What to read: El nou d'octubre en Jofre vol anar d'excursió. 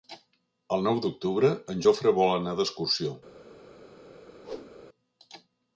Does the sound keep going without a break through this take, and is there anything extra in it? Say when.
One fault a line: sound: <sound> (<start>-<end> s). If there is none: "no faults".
sound: whoosh (4.4-4.8 s)